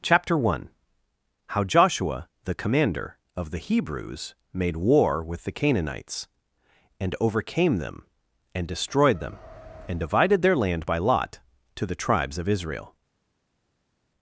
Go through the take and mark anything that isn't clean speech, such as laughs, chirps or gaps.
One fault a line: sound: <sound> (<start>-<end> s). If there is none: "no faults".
no faults